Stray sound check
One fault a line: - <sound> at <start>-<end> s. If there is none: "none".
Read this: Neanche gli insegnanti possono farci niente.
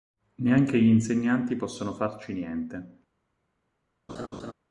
- laugh at 4.1-4.5 s